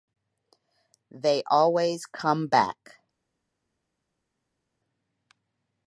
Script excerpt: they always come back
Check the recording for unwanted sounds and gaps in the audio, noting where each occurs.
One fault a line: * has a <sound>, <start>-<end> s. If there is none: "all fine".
all fine